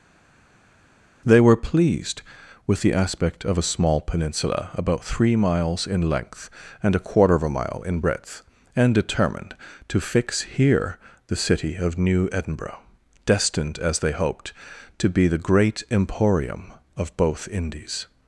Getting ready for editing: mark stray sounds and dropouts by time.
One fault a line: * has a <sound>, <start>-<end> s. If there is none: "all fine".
all fine